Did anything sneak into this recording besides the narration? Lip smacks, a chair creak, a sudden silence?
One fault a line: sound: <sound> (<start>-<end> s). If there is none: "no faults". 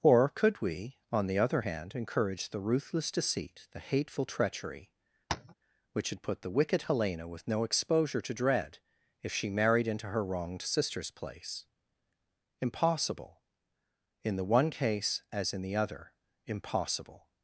sound: tap (5.3-5.5 s)